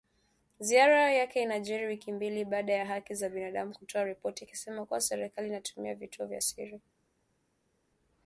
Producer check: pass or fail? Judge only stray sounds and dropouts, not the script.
pass